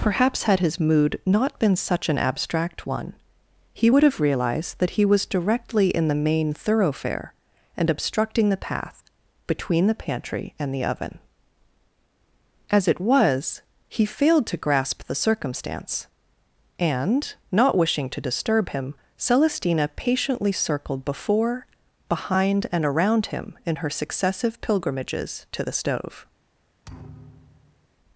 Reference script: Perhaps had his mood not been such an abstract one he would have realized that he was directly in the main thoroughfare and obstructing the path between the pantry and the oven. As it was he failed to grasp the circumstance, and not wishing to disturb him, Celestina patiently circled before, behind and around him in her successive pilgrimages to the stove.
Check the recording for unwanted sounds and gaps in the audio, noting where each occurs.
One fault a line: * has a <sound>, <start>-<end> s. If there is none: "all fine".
* has a thud, 26.8-27.9 s